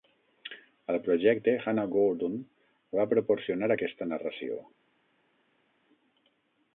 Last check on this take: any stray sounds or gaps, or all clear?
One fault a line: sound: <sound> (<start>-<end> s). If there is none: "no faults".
no faults